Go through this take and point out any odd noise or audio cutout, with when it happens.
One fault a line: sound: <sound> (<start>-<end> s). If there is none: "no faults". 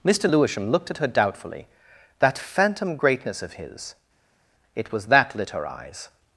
no faults